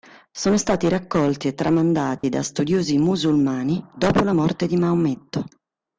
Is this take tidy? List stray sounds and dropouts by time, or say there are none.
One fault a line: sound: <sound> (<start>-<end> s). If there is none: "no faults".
sound: dropout (2.2-2.2 s)